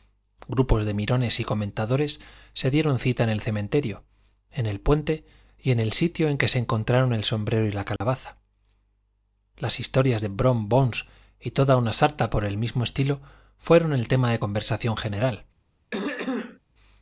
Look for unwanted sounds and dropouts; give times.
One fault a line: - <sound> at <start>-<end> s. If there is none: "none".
- dropout at 8.0-8.0 s
- throat clearing at 15.9-16.6 s